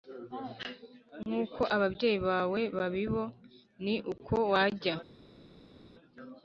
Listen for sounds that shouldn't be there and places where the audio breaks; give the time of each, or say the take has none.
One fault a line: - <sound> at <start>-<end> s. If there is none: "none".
none